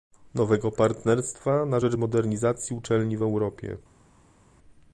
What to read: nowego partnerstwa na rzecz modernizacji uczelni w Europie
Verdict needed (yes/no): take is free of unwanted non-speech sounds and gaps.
yes